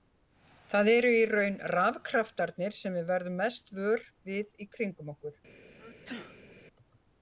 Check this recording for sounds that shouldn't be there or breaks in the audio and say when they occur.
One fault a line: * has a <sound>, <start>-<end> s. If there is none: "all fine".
* has a sneeze, 5.8-6.5 s